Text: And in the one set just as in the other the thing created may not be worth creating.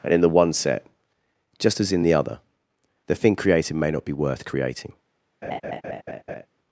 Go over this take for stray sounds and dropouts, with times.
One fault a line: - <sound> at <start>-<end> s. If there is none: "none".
- laugh at 5.4-6.5 s